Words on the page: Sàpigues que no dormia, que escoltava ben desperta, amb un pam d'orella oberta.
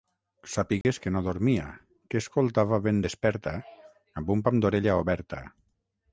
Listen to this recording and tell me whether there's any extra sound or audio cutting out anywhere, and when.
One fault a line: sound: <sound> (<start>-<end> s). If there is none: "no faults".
sound: dropout (0.8-0.8 s)